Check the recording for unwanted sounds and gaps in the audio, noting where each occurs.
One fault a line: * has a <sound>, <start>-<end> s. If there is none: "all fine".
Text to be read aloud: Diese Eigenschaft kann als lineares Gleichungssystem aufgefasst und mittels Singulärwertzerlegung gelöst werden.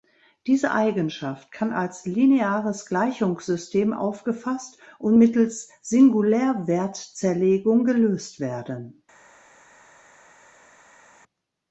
all fine